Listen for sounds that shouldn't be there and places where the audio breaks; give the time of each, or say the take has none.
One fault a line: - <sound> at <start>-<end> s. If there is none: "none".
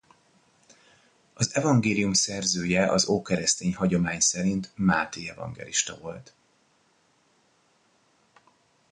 none